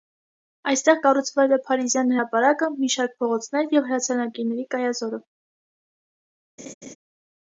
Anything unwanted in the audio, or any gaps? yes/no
yes